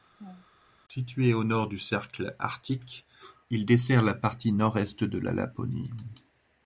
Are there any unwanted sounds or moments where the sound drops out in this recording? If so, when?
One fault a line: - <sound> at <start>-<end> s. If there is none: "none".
- laugh at 0.2-0.5 s